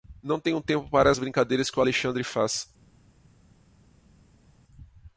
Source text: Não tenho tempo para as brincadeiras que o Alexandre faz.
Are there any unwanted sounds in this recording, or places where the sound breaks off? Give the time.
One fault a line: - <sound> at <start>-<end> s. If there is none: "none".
none